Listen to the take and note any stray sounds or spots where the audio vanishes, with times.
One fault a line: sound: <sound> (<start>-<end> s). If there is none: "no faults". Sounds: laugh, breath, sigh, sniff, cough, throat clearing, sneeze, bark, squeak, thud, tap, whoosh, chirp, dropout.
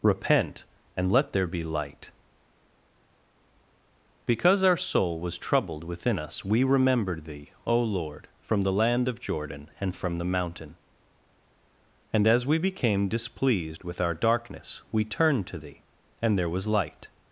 no faults